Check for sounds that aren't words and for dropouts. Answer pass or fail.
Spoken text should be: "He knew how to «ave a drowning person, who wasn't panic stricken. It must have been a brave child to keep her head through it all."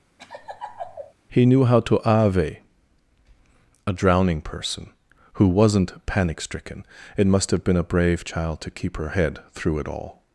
fail